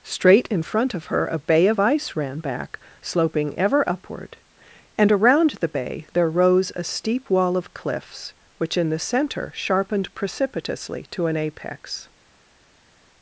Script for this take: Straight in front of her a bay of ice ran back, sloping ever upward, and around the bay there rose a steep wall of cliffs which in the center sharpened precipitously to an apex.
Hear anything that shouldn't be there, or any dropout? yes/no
no